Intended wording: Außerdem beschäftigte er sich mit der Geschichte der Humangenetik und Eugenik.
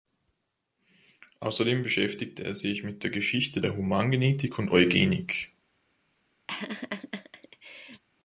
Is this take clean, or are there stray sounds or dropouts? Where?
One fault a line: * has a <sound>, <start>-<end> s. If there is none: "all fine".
* has a laugh, 6.5-8.0 s